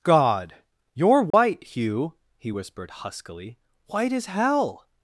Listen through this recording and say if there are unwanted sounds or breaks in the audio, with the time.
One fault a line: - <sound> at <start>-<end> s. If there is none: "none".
- dropout at 1.3-1.3 s